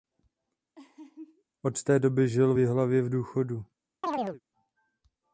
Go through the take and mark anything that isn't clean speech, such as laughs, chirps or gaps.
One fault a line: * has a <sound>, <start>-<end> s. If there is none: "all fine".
* has a laugh, 0.7-1.4 s
* has a chirp, 4.0-4.4 s